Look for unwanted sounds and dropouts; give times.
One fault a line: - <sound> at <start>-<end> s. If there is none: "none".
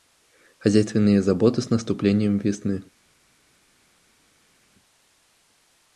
none